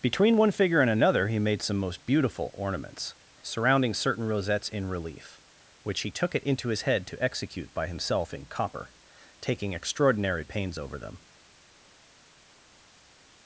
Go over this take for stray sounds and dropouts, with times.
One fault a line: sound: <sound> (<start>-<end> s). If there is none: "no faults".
no faults